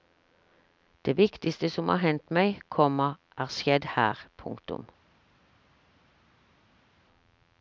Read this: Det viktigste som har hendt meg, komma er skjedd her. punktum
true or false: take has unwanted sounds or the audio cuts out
false